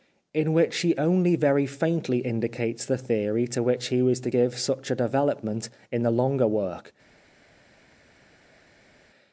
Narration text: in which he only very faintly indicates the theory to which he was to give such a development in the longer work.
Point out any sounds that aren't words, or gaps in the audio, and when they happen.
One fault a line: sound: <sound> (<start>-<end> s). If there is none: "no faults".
no faults